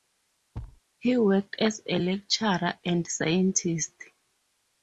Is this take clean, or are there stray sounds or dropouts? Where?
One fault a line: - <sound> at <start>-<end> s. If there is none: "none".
- thud at 0.5-0.8 s